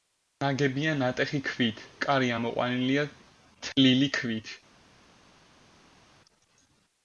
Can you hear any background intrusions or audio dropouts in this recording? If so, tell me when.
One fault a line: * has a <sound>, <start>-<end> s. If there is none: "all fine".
all fine